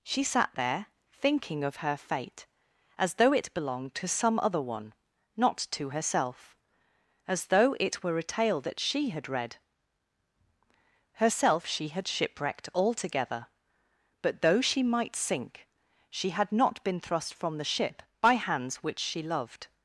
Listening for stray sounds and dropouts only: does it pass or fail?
pass